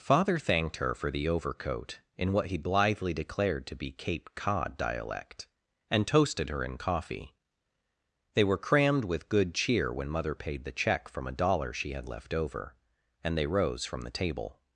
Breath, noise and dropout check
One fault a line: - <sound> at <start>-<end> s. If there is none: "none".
none